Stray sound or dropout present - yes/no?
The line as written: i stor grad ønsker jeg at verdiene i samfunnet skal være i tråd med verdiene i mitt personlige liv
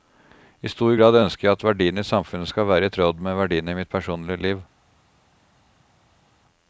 no